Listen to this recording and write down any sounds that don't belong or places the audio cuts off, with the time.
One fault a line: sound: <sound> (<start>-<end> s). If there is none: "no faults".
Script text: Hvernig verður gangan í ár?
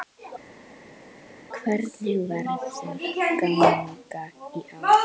no faults